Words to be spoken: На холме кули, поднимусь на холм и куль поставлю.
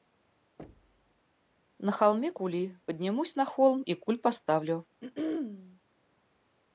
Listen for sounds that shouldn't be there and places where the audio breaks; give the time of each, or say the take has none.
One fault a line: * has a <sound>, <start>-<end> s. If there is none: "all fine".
* has a thud, 0.6-1.2 s
* has a throat clearing, 5.0-5.8 s